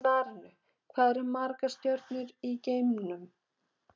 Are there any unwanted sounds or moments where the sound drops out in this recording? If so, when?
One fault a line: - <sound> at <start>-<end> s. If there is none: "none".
none